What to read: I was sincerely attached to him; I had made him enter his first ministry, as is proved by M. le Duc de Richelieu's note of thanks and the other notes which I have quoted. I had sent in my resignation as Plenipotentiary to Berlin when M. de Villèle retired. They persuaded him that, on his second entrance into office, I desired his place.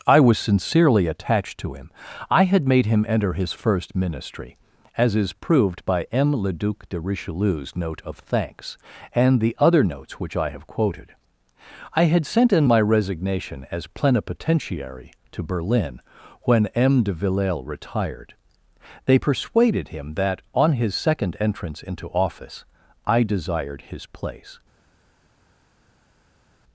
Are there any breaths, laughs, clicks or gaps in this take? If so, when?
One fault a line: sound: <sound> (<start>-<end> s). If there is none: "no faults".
no faults